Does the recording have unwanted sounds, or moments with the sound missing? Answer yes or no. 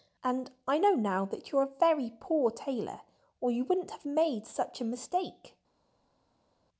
no